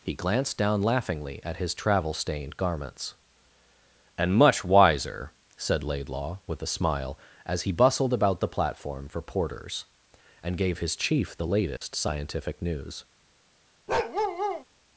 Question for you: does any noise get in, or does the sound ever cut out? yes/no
yes